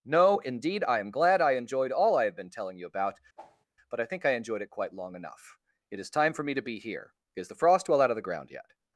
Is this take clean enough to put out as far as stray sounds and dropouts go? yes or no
no